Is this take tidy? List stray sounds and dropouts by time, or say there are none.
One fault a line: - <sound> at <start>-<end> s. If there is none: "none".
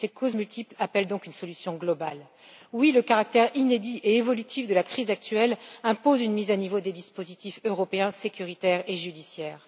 none